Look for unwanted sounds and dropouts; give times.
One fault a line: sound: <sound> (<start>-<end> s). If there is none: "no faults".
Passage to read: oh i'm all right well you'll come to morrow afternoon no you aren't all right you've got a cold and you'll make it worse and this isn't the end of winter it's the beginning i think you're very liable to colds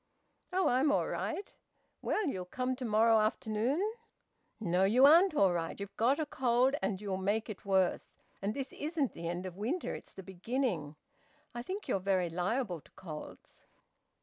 no faults